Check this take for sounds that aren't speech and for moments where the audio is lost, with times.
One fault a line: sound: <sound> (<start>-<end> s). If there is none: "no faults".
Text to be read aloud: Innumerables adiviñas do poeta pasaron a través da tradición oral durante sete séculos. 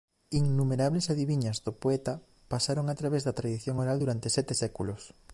no faults